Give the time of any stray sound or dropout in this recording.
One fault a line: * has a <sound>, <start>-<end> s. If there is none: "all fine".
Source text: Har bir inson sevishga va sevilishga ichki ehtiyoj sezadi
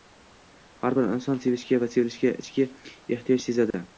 * has a dropout, 3.7-3.7 s